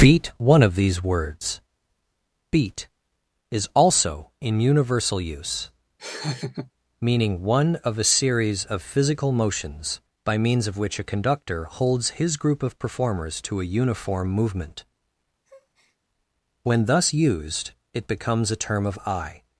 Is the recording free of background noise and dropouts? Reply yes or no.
no